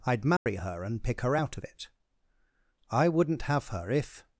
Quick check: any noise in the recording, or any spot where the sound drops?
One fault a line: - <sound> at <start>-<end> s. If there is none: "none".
- dropout at 0.4-0.5 s